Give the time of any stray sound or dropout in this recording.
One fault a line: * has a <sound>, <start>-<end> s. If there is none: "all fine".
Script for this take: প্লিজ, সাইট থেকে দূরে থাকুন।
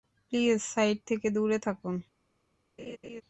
* has a laugh, 2.8-3.2 s